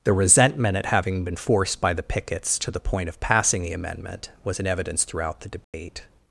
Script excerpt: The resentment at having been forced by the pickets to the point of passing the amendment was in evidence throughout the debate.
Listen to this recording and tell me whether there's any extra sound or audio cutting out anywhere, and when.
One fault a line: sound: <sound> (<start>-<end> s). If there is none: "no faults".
sound: dropout (5.6-5.7 s)